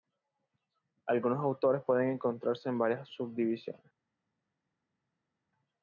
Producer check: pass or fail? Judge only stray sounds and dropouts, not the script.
pass